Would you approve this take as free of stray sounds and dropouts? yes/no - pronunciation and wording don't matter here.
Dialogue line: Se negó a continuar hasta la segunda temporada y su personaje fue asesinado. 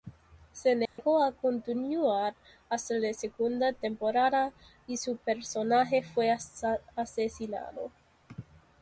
no